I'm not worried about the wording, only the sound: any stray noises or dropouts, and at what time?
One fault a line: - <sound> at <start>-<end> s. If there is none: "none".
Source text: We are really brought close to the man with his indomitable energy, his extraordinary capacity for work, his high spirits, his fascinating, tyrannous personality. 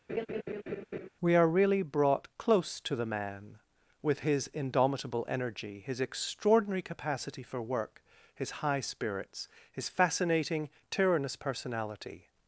- laugh at 0.1-1.1 s